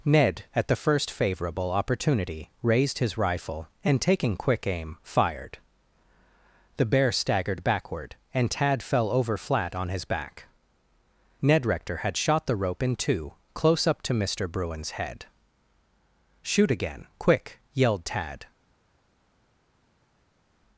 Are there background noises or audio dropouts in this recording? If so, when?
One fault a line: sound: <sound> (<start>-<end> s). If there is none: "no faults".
no faults